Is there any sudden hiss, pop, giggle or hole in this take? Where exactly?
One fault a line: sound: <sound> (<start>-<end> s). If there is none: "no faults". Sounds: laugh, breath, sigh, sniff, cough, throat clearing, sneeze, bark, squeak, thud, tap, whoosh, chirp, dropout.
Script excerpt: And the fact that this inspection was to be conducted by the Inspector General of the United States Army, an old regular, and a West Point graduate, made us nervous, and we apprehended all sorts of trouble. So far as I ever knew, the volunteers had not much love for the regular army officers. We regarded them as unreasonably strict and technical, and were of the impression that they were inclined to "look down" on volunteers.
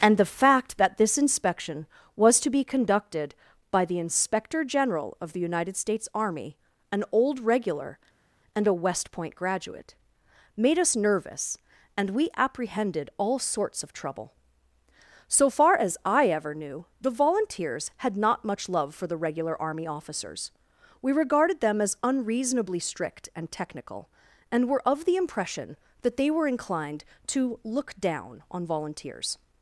no faults